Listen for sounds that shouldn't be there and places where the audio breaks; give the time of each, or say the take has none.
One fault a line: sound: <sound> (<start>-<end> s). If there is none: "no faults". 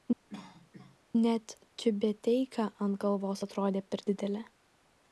sound: cough (0.3-1.0 s)